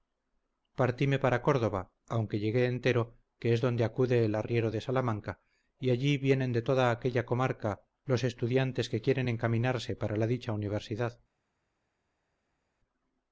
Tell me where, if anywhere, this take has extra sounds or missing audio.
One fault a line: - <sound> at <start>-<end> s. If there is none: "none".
none